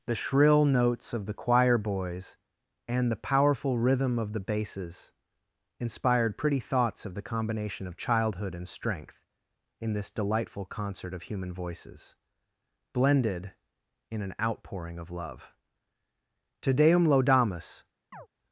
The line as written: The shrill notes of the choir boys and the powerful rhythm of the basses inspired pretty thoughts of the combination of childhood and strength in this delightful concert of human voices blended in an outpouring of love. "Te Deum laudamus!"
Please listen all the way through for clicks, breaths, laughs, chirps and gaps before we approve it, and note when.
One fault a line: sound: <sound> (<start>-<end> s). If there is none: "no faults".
sound: chirp (18.1-18.3 s)